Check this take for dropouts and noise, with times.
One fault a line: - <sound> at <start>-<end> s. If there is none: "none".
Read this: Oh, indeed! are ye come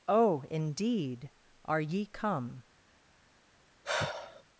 - sigh at 3.8-4.4 s